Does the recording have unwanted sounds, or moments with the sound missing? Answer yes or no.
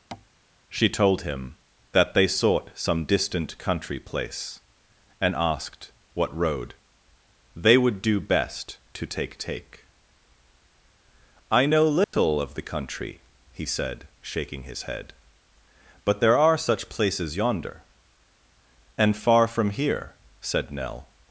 yes